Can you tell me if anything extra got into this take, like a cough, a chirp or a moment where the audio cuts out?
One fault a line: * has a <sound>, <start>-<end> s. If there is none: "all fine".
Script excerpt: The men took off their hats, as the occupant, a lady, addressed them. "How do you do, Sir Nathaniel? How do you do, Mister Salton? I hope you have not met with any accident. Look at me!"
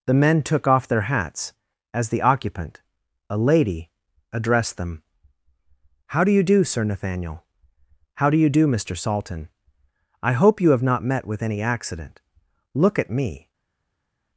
all fine